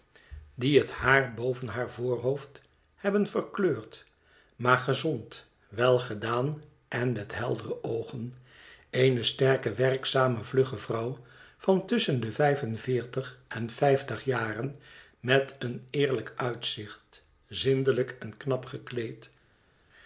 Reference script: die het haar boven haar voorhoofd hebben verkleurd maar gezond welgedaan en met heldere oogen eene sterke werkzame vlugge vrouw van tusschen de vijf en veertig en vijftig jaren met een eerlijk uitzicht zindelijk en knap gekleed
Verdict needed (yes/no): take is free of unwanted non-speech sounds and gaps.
yes